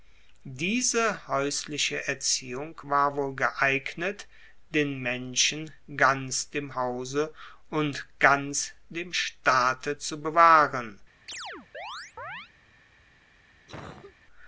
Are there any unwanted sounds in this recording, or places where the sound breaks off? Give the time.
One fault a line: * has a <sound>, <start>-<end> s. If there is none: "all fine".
* has a chirp, 11.3-12.5 s
* has a cough, 13.7-14.2 s